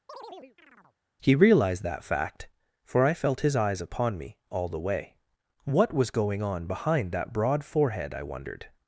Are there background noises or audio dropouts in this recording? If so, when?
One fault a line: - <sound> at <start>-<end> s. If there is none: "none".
- chirp at 0.1-1.0 s